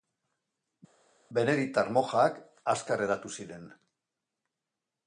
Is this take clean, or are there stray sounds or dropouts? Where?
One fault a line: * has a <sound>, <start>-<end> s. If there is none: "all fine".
all fine